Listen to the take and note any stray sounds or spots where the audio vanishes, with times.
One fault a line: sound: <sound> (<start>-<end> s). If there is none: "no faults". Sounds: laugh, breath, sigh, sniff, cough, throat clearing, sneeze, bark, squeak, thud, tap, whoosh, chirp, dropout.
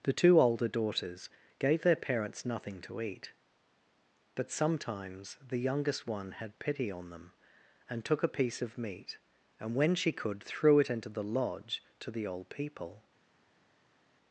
no faults